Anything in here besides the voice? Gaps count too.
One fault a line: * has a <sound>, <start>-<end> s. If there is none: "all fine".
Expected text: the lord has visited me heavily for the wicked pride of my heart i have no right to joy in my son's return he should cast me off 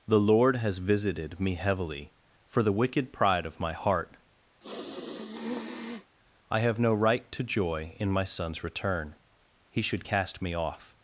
* has a sniff, 4.6-6.2 s